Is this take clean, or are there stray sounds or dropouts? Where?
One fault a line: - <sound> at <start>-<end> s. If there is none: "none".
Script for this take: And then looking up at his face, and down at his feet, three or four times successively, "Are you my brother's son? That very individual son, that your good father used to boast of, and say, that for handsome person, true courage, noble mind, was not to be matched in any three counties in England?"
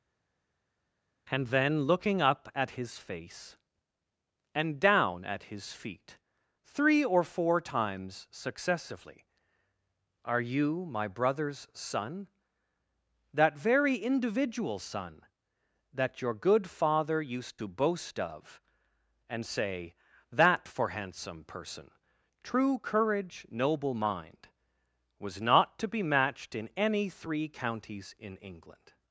none